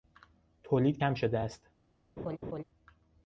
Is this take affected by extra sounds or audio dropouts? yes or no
yes